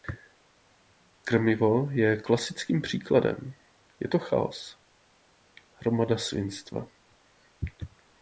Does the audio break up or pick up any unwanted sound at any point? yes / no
no